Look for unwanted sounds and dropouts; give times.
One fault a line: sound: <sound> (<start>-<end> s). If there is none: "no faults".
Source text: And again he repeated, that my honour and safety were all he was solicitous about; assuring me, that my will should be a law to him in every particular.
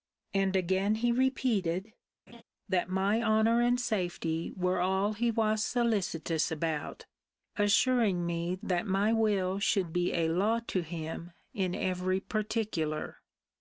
sound: laugh (2.3-2.4 s)